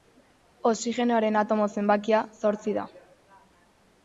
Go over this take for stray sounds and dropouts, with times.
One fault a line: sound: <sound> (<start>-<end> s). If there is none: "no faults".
no faults